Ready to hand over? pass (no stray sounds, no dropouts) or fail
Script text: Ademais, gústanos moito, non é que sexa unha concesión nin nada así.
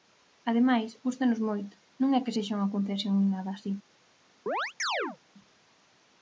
fail